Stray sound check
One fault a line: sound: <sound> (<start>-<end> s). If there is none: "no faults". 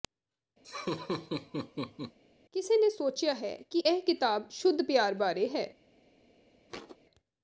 sound: laugh (0.6-2.2 s)
sound: thud (6.7-7.0 s)